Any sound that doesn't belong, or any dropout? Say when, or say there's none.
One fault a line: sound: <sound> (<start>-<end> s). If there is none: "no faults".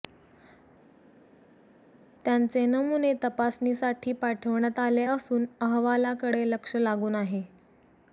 no faults